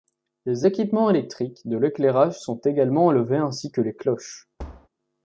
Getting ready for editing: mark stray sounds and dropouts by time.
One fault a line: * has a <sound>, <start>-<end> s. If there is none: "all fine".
* has a thud, 4.6-4.9 s